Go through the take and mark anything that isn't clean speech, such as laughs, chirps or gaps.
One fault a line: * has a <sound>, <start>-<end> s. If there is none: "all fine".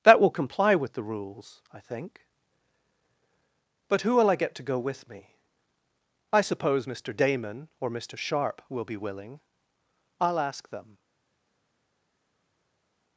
all fine